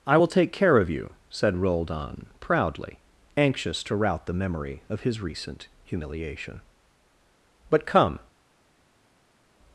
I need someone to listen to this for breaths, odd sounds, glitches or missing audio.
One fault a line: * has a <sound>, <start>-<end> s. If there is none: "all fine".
all fine